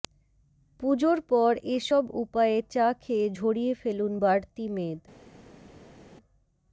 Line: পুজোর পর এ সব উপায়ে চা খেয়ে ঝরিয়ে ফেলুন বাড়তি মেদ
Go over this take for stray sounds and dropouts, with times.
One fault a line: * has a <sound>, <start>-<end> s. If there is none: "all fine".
all fine